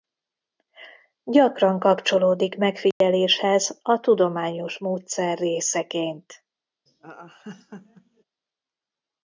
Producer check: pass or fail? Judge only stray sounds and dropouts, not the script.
fail